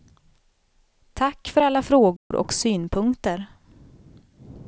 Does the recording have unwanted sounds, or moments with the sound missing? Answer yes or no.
yes